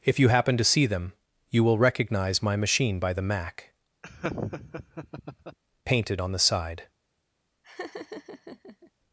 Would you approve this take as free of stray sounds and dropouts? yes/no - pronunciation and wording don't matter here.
no